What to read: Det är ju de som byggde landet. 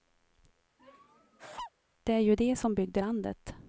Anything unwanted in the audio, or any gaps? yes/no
yes